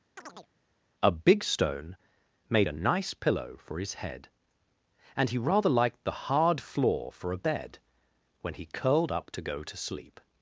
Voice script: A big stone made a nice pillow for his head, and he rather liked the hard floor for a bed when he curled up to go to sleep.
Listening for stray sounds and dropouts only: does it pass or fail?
fail